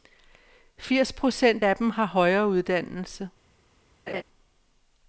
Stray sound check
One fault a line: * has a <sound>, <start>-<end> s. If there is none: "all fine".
* has a laugh, 4.1-4.2 s